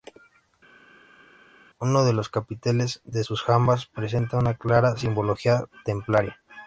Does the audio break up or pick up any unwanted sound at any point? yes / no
no